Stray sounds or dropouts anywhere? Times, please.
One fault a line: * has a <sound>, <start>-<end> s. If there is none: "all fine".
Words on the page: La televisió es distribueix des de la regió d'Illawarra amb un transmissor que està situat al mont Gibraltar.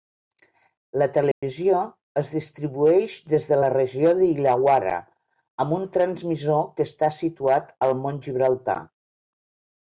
* has a dropout, 1.3-1.4 s